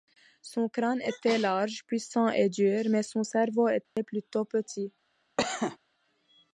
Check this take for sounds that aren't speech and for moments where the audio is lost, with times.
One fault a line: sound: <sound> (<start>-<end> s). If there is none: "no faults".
sound: dropout (3.8-4.0 s)
sound: cough (5.4-5.8 s)